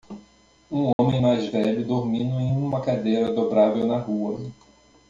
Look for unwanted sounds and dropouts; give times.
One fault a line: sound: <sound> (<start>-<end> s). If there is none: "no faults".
sound: dropout (0.9-1.0 s)